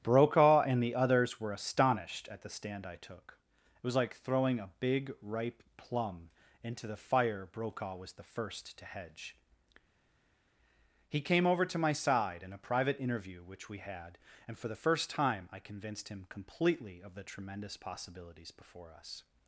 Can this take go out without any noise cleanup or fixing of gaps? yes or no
yes